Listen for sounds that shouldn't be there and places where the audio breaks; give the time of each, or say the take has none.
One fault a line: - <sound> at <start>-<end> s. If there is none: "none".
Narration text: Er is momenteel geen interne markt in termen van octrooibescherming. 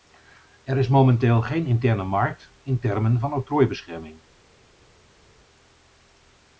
none